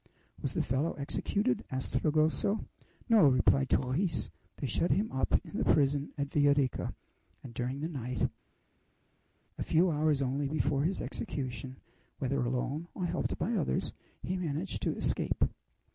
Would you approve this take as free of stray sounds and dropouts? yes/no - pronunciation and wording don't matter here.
yes